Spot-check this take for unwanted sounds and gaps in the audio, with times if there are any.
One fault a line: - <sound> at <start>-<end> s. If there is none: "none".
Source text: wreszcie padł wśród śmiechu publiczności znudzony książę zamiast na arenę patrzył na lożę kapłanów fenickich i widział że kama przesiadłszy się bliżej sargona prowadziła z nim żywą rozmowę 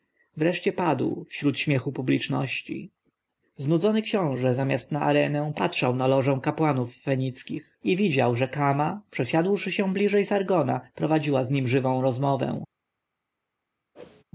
- whoosh at 13.9-14.2 s